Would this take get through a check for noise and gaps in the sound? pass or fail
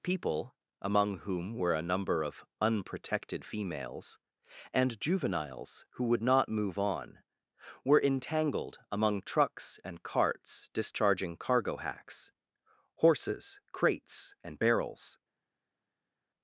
pass